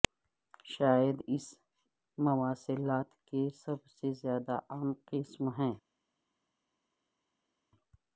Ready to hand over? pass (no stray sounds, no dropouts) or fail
pass